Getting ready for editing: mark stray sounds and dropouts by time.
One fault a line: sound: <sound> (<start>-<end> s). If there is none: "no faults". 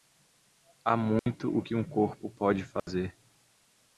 sound: dropout (1.2-1.3 s)
sound: dropout (2.8-2.9 s)